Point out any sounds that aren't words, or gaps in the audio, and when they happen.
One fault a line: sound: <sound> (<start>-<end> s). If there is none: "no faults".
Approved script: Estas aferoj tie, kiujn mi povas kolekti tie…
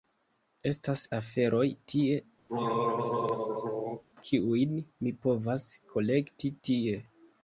sound: throat clearing (2.5-4.0 s)